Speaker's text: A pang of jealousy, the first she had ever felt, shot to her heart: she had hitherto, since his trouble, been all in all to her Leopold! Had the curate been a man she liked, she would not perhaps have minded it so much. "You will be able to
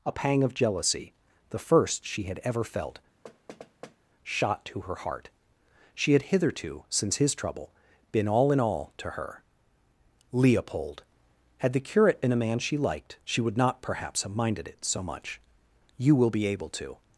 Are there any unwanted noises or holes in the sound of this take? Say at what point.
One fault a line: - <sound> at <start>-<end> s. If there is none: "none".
- thud at 3.2-4.0 s